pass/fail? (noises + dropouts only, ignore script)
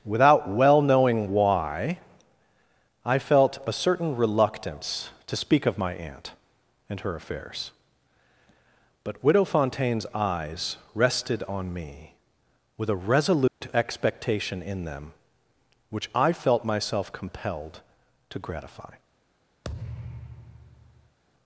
fail